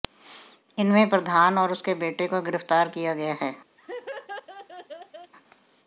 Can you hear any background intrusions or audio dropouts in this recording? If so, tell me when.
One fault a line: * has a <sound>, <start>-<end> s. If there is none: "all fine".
* has a laugh, 3.8-5.3 s